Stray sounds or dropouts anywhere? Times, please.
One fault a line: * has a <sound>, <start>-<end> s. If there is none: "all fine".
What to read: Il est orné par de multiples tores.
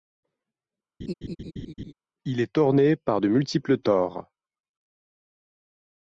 * has a laugh, 1.0-1.9 s